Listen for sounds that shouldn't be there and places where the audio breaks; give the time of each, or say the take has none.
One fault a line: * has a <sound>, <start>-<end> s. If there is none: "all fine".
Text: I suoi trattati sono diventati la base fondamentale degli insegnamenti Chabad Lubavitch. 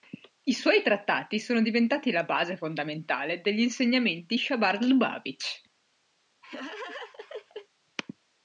* has a laugh, 6.4-7.7 s